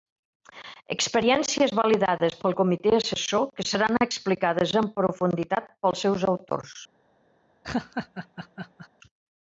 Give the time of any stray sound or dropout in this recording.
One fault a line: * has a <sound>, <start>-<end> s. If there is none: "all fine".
* has a laugh, 7.6-8.9 s